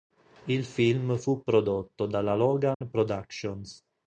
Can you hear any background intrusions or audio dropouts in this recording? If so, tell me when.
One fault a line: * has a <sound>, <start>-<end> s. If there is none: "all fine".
* has a dropout, 2.7-2.8 s